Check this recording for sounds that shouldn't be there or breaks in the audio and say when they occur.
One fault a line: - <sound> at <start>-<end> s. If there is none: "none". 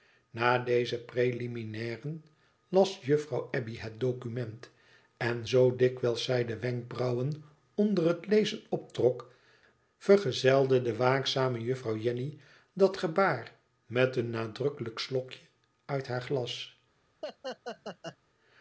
- laugh at 17.2-18.2 s